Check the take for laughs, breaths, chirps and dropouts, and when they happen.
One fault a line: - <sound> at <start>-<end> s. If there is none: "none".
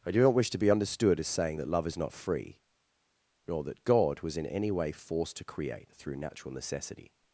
none